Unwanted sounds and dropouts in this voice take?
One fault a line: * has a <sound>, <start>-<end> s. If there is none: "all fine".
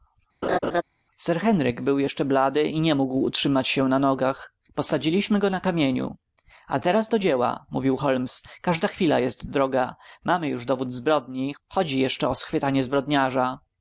* has a laugh, 0.4-0.8 s